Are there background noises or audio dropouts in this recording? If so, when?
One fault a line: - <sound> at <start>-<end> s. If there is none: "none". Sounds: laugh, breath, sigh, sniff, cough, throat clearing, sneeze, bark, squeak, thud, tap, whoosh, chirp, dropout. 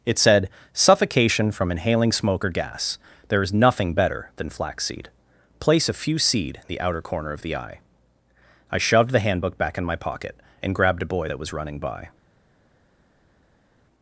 none